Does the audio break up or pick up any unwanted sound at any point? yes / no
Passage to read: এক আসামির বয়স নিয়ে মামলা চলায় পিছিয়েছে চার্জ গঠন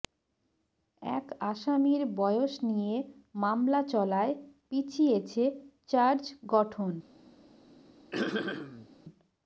yes